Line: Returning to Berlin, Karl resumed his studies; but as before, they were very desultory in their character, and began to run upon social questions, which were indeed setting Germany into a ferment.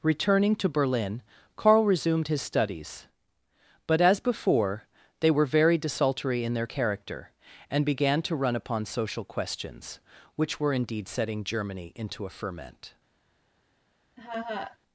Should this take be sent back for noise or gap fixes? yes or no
yes